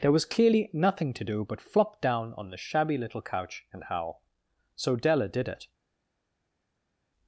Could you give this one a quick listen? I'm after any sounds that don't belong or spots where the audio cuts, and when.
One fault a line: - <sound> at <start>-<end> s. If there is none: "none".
none